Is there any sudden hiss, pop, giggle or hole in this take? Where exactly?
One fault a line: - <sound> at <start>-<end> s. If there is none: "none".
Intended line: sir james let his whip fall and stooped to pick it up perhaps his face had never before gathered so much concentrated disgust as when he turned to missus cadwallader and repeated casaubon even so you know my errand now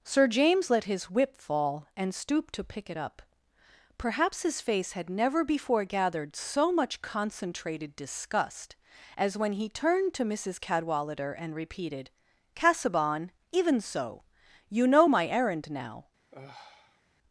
- sigh at 16.3-17.0 s